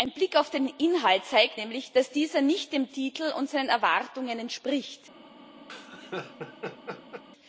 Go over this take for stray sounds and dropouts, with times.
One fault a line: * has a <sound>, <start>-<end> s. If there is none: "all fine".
* has a laugh, 5.7-7.2 s